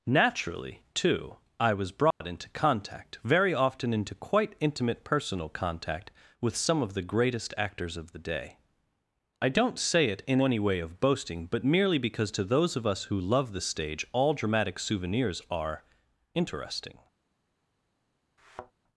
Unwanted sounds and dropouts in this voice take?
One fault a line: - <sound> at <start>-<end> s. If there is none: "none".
- dropout at 2.1-2.2 s
- thud at 18.4-18.7 s